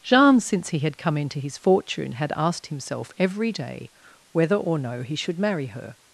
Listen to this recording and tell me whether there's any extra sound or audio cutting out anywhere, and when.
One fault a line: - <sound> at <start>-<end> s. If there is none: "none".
none